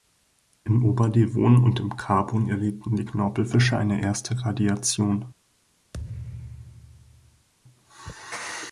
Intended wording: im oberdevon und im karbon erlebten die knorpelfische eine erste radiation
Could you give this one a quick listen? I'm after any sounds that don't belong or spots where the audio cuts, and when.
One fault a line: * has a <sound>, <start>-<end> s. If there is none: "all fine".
* has a thud, 5.9-7.5 s